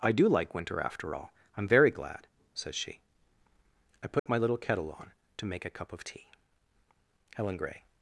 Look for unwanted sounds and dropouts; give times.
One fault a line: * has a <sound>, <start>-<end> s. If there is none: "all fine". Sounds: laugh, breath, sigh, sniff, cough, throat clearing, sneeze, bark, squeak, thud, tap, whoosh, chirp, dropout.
* has a dropout, 4.2-4.3 s